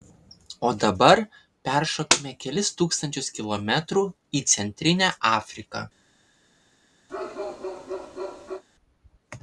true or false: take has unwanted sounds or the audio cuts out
true